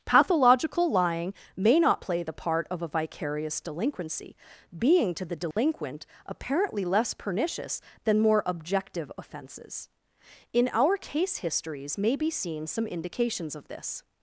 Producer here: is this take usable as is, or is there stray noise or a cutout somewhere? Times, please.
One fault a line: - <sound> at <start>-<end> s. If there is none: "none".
- dropout at 5.5-5.6 s